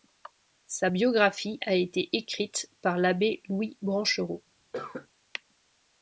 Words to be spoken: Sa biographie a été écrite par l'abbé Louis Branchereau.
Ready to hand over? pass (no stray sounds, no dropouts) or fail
fail